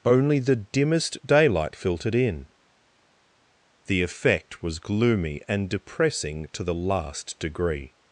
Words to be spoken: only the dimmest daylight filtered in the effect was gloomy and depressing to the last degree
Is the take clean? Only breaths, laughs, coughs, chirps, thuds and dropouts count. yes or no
yes